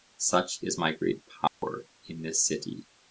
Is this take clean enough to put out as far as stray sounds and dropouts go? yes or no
no